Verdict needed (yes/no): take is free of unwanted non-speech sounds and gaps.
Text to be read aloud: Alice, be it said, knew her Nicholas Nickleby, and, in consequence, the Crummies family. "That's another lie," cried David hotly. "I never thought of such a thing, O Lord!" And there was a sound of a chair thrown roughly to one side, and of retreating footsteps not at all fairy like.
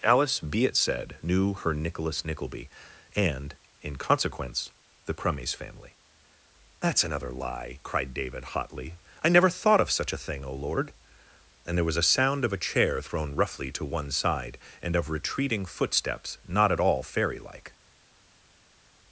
yes